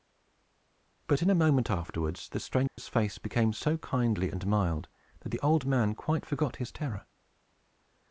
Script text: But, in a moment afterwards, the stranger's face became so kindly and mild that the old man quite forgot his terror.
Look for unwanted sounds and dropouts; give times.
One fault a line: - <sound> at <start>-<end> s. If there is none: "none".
- dropout at 2.7-2.8 s